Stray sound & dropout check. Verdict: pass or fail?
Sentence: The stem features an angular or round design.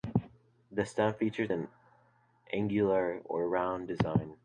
pass